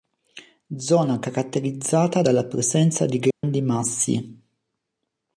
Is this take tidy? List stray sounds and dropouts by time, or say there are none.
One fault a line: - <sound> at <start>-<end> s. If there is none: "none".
- dropout at 3.3-3.4 s